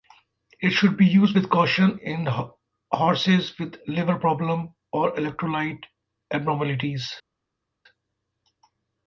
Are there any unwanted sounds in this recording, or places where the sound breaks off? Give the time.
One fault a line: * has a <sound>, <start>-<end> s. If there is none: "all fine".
all fine